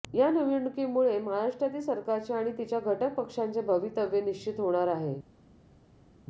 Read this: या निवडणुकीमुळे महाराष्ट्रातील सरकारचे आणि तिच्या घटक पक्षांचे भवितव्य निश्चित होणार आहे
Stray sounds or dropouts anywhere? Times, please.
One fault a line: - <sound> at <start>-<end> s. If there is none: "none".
none